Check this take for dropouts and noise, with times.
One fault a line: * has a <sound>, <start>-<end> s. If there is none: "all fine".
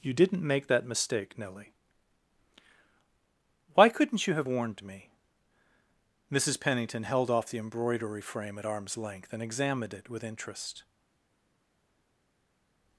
all fine